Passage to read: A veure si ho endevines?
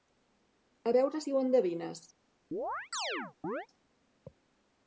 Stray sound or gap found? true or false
true